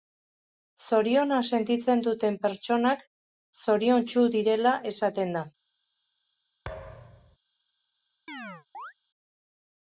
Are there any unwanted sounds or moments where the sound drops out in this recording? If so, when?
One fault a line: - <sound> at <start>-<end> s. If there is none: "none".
- thud at 6.6-7.4 s
- chirp at 8.3-8.9 s